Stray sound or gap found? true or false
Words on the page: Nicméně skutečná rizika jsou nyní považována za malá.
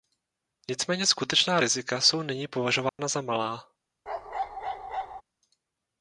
true